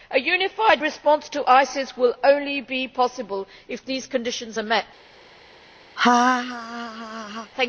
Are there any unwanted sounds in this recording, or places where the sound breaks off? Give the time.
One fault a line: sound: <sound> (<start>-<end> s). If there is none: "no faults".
sound: laugh (6.0-7.5 s)